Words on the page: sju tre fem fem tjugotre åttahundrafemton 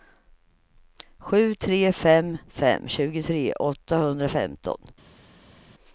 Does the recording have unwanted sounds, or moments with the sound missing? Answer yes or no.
no